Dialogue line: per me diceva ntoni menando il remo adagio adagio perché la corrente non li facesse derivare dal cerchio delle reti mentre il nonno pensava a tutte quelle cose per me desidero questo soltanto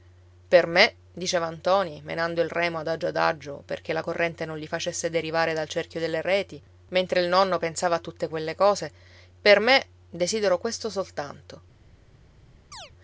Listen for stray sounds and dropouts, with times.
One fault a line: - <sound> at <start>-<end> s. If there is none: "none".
- chirp at 12.7-12.9 s